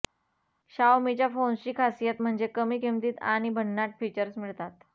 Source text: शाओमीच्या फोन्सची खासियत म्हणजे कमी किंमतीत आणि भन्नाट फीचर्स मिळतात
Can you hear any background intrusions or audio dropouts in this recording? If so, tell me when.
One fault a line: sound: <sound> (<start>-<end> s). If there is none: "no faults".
no faults